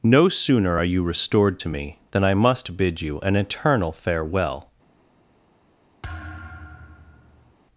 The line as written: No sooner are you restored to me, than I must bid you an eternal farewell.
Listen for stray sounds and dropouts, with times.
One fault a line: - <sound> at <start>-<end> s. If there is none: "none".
- thud at 6.0-7.5 s